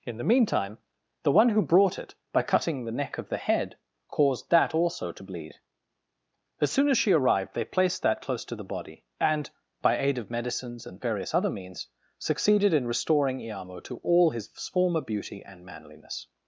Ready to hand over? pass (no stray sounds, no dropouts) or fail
pass